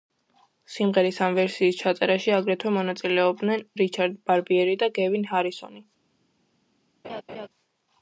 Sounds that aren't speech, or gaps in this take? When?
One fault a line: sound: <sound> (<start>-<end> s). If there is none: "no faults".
sound: laugh (7.0-7.5 s)